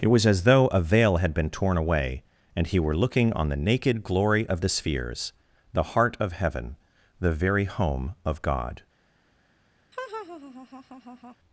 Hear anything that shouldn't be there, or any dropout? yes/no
yes